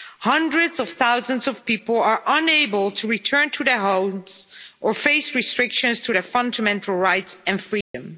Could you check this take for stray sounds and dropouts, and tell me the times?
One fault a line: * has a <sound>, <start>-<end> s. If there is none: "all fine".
* has a dropout, 7.8-7.9 s